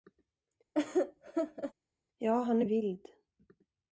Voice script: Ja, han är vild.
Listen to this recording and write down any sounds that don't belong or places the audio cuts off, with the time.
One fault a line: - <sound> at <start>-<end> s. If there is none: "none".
- laugh at 0.7-1.7 s